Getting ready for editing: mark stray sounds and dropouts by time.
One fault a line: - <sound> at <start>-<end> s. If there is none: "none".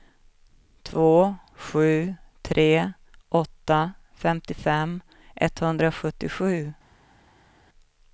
none